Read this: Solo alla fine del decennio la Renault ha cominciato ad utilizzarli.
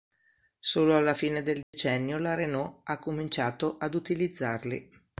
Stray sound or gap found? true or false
true